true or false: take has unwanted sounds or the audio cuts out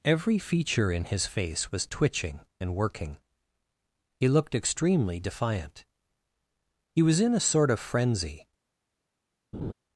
true